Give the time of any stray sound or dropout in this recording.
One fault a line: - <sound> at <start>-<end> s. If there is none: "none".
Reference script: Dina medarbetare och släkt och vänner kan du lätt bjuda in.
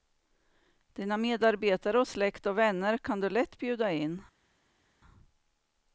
none